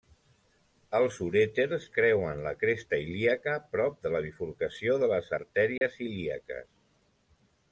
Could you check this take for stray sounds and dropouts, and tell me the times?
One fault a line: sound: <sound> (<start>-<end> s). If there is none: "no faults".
sound: dropout (5.8-5.8 s)